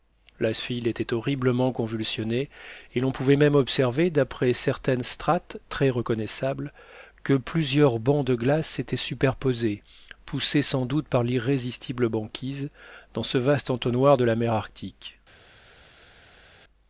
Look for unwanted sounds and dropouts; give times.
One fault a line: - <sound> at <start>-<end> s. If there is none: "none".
none